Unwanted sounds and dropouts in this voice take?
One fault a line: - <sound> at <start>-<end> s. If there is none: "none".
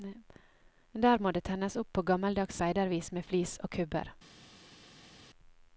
none